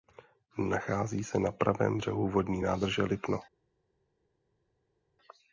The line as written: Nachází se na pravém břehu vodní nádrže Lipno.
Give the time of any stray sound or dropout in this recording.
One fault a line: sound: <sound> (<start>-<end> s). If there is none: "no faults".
no faults